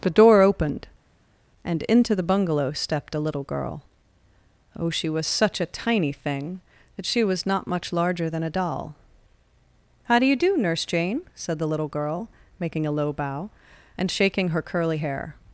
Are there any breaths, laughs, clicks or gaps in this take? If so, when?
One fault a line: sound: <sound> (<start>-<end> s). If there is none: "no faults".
no faults